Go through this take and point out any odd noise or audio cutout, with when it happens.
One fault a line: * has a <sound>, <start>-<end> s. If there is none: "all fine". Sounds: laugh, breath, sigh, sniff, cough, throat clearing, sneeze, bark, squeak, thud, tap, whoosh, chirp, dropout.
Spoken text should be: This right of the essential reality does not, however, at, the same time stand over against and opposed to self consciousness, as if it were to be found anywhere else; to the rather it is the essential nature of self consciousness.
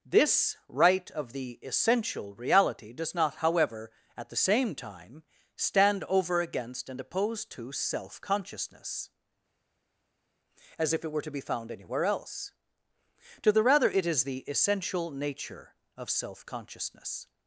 all fine